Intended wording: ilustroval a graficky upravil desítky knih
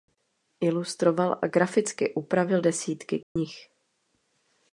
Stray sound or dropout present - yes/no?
yes